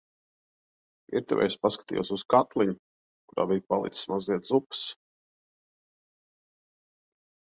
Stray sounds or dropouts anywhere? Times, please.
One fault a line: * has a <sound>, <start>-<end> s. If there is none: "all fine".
all fine